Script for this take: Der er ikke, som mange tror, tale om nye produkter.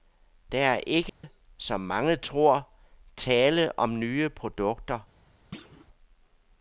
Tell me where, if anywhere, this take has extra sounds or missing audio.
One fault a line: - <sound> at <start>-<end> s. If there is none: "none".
- dropout at 1.1-1.2 s
- thud at 5.5-5.9 s